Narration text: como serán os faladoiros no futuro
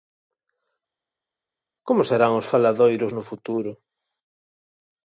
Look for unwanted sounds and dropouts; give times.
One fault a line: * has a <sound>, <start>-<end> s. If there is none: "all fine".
all fine